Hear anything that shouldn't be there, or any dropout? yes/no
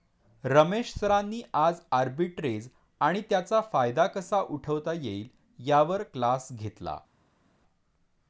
no